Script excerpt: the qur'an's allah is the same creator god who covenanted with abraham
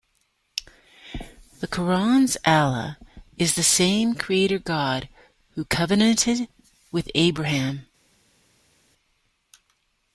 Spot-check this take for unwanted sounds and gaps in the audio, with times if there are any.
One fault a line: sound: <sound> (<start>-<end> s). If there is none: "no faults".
no faults